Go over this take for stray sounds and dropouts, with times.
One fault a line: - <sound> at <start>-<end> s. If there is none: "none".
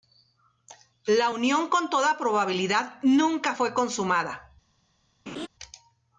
- laugh at 5.3-5.5 s